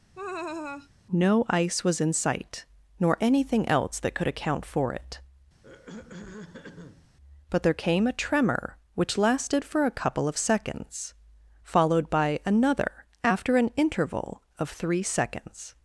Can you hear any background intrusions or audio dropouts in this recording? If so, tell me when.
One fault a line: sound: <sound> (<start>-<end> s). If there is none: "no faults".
sound: laugh (0.1-0.9 s)
sound: throat clearing (5.6-7.1 s)